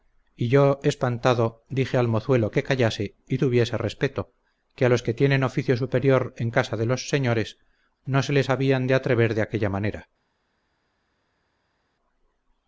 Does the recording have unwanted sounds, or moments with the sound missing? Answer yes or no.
no